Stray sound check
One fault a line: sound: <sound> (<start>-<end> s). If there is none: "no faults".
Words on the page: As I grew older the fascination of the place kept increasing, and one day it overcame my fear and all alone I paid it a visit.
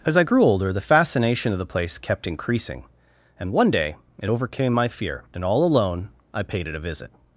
no faults